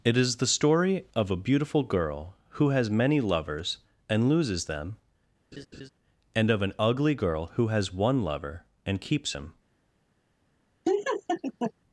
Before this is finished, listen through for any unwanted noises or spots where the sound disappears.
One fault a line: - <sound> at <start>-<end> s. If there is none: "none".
- laugh at 5.5-5.9 s
- laugh at 10.8-11.7 s